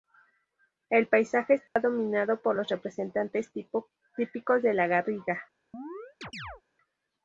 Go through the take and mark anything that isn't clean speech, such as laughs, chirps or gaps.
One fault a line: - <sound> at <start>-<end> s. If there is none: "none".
- dropout at 1.7-1.8 s
- chirp at 5.7-6.6 s